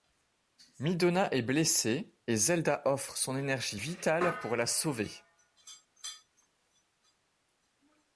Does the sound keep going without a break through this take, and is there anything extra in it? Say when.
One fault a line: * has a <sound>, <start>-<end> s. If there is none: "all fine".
all fine